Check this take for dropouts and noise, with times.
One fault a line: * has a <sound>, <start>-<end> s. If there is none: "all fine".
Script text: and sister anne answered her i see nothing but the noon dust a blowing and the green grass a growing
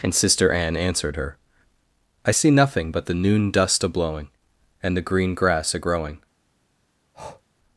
* has a breath, 7.1-7.4 s